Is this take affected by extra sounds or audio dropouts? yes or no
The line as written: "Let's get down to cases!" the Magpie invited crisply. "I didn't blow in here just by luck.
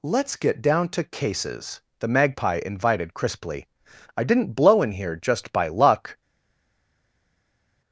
no